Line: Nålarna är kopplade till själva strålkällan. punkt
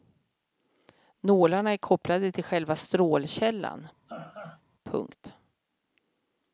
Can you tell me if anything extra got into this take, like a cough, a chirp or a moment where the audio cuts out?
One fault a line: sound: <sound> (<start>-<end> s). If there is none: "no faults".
sound: laugh (4.1-4.6 s)